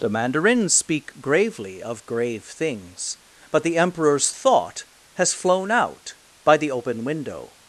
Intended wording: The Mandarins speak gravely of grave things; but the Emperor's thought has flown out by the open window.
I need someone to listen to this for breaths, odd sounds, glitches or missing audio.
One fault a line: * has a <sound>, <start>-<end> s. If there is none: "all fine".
all fine